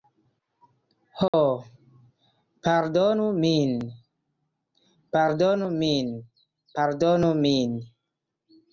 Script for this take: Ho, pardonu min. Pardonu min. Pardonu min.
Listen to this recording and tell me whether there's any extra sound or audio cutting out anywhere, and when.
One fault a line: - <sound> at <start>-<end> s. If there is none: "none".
- dropout at 1.3-1.3 s